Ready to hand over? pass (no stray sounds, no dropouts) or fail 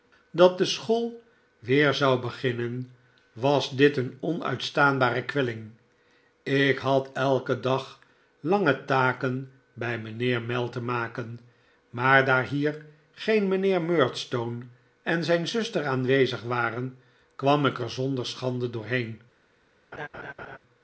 fail